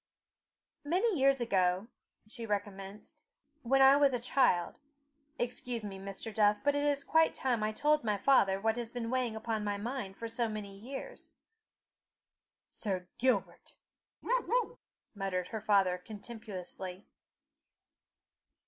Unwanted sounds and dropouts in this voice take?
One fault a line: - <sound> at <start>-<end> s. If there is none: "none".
- bark at 14.2-14.8 s